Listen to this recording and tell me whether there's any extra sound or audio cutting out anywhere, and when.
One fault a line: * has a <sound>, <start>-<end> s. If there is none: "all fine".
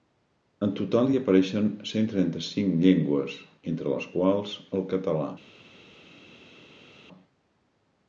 all fine